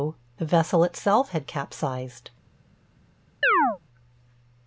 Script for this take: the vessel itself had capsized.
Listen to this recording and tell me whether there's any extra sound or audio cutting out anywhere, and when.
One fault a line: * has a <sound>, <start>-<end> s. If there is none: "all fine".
* has a chirp, 3.4-3.8 s